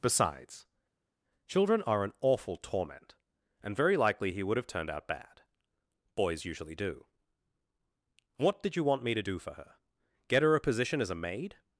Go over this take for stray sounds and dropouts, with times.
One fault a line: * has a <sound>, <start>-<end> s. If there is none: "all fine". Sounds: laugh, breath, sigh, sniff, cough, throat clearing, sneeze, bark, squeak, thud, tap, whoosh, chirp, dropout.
all fine